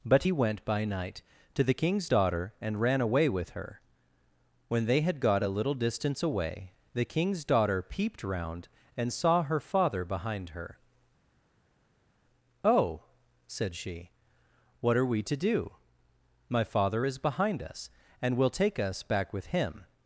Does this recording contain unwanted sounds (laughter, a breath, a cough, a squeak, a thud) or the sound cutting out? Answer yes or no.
no